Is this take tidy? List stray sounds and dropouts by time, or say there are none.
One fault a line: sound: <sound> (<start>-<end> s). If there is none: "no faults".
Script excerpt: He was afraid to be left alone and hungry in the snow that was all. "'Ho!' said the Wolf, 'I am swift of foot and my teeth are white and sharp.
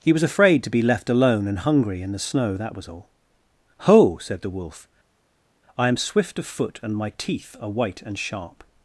no faults